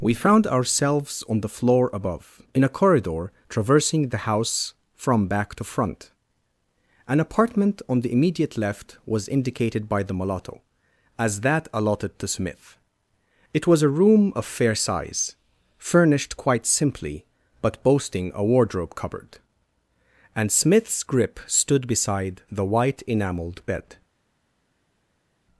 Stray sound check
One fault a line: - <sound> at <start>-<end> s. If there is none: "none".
none